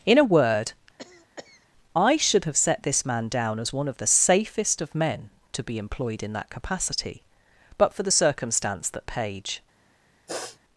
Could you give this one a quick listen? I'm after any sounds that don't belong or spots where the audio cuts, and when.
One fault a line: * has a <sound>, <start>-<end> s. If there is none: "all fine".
* has a cough, 1.0-1.7 s
* has a sniff, 10.3-10.6 s